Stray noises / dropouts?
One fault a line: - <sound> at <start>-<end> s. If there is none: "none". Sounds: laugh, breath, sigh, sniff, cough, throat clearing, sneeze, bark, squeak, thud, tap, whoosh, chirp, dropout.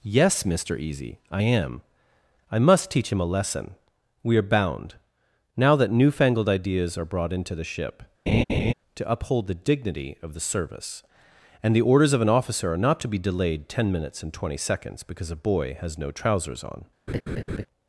- laugh at 8.3-8.7 s
- laugh at 17.1-17.7 s